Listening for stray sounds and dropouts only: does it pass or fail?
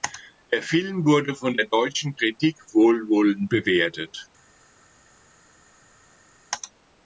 pass